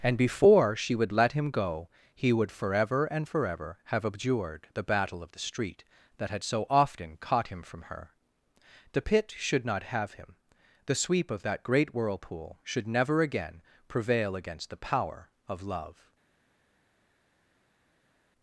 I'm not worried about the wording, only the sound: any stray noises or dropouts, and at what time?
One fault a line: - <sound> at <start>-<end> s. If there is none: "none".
none